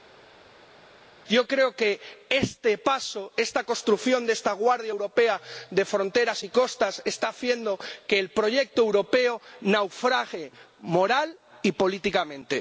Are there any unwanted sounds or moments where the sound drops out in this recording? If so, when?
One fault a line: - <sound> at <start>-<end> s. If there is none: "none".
none